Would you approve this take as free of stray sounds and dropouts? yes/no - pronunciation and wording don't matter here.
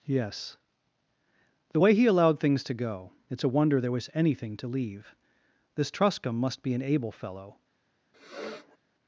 no